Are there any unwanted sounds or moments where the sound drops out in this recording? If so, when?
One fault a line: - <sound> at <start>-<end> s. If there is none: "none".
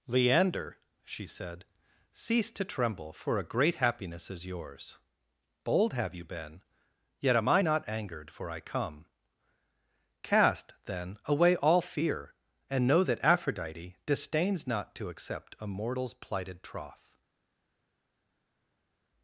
none